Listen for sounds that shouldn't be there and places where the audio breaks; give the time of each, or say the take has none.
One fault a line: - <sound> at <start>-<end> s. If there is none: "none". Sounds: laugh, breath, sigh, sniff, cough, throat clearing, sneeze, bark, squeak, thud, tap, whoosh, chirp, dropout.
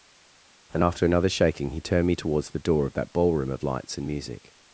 none